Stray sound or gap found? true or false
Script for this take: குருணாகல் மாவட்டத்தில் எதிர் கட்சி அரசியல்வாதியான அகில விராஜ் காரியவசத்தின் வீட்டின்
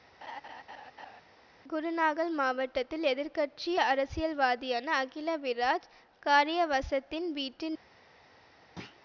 true